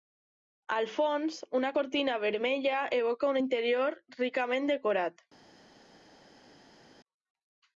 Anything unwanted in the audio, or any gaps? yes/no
no